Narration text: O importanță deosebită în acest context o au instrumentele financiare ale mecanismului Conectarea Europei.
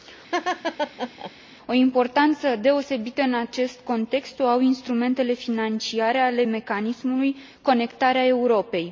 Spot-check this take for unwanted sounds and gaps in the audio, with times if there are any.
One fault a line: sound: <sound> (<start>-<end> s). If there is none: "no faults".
sound: laugh (0.3-1.3 s)